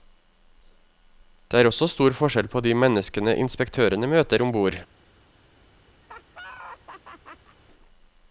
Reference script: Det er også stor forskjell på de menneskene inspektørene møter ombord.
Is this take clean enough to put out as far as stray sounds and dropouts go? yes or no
no